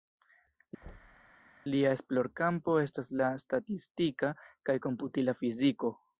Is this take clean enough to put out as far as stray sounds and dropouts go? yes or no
no